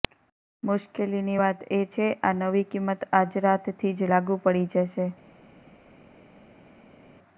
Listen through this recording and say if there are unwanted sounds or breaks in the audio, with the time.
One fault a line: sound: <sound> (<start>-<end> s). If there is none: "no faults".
no faults